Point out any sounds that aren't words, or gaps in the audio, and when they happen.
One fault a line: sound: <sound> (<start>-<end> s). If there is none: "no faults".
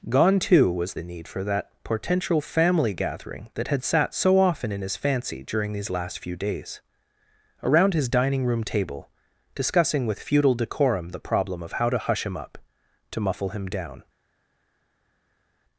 no faults